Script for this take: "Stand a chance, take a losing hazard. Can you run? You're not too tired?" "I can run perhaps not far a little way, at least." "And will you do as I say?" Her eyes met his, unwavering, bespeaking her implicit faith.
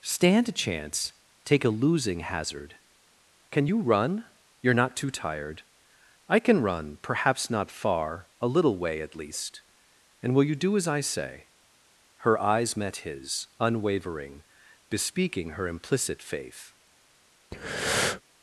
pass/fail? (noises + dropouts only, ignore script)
fail